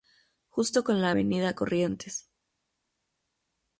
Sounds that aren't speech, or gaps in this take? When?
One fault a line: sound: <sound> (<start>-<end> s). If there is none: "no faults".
no faults